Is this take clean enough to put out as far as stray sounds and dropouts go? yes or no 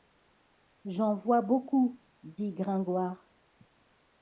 yes